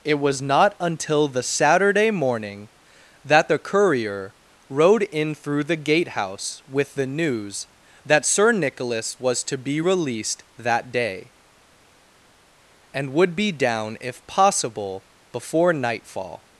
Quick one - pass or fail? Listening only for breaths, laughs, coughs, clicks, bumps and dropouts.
pass